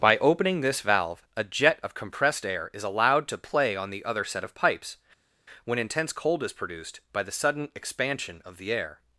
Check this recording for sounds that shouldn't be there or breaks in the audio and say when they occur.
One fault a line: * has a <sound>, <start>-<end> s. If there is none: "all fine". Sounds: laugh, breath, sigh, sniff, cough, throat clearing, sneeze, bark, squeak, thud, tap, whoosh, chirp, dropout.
all fine